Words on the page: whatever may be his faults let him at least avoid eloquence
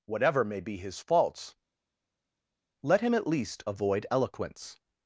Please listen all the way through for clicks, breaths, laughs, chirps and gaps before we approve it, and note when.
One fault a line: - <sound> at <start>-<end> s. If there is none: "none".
none